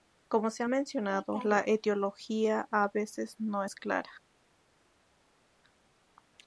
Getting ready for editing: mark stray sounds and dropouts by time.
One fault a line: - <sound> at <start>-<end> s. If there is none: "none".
none